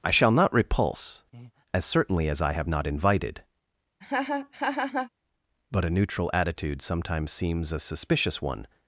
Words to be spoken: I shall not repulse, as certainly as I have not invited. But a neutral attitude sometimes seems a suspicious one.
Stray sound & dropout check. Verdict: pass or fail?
fail